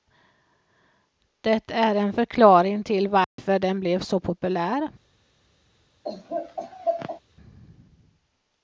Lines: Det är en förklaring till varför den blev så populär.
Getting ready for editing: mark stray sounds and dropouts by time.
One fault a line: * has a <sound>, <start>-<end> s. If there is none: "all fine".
* has a dropout, 3.2-3.4 s
* has a laugh, 6.0-7.2 s